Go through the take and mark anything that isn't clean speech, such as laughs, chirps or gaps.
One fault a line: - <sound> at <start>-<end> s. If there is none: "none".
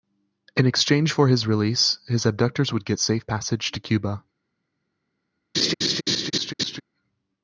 - laugh at 5.5-6.8 s